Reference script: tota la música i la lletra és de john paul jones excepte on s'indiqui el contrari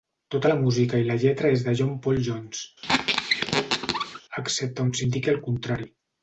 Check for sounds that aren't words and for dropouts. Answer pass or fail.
fail